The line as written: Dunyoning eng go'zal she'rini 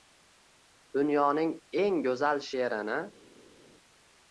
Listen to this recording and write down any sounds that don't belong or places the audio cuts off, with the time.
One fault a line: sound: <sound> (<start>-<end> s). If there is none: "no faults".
no faults